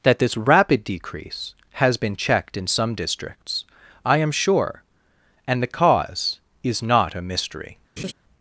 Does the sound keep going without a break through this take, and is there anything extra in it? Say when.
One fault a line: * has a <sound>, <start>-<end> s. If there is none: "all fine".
* has a laugh, 8.0-8.1 s